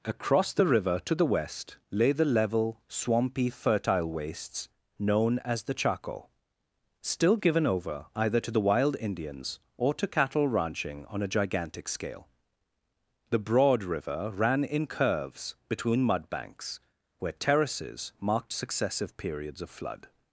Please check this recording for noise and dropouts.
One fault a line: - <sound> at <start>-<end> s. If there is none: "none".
none